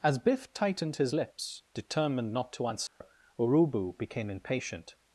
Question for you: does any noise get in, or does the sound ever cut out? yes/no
yes